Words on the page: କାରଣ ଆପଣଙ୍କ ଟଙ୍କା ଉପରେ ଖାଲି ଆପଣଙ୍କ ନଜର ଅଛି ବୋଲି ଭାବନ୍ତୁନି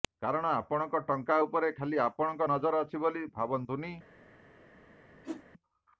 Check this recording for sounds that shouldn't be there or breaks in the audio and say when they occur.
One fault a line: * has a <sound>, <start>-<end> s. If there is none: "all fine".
* has a whoosh, 5.2-5.4 s